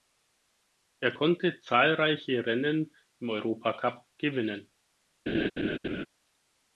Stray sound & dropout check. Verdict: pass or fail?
fail